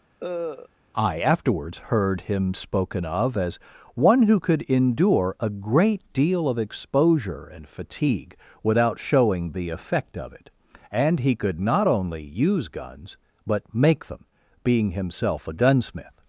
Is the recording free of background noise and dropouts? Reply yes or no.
no